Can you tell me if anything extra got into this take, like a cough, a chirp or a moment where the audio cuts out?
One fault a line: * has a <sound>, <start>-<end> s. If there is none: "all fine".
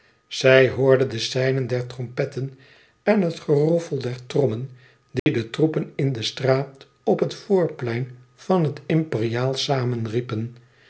* has a dropout, 5.2-5.3 s